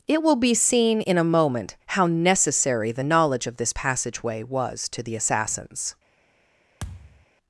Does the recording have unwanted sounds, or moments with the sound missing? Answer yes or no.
yes